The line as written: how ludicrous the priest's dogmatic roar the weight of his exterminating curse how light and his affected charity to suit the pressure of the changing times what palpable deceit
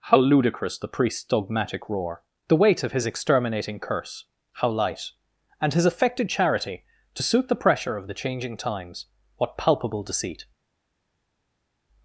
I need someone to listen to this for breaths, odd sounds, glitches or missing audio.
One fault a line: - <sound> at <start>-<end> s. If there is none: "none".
none